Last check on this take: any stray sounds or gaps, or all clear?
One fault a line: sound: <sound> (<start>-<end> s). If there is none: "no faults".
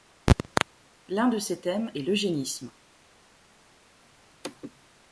no faults